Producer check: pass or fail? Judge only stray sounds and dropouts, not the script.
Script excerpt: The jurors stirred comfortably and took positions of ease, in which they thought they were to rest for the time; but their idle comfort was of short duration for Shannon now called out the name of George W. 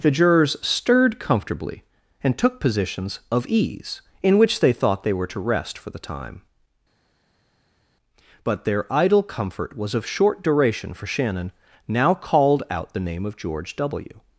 pass